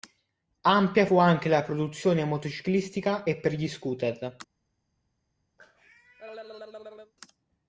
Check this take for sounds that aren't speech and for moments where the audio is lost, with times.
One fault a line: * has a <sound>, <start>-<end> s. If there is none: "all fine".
* has a cough, 5.6-7.1 s